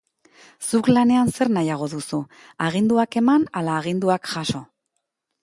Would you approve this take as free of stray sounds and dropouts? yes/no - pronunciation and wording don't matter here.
yes